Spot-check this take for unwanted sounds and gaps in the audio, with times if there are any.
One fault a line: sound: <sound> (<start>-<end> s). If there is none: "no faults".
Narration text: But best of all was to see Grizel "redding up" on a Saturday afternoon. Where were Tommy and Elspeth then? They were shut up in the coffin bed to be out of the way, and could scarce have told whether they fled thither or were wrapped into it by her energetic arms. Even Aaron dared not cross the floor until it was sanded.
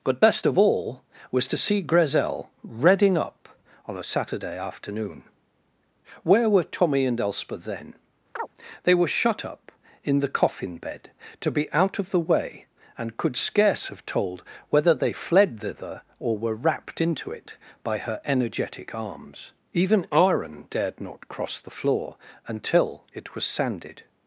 sound: chirp (8.4-8.5 s)